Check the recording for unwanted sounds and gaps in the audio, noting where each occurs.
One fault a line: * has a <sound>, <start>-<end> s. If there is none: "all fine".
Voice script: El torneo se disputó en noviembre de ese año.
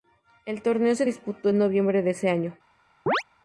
* has a chirp, 3.1-3.2 s